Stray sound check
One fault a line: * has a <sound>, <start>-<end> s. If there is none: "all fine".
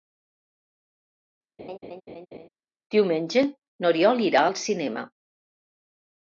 * has a laugh, 1.6-2.5 s